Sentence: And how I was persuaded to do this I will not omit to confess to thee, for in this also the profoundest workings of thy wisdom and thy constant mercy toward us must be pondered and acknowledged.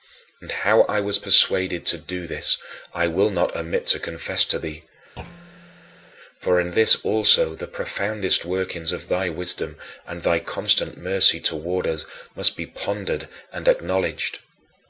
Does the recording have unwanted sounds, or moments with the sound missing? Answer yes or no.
yes